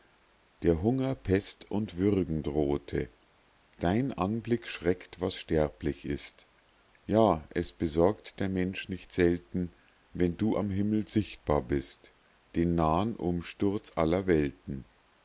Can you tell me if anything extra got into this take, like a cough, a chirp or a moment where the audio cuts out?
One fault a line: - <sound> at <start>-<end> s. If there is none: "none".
none